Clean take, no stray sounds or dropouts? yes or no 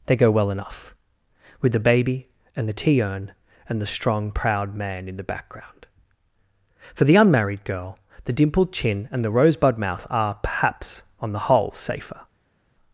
yes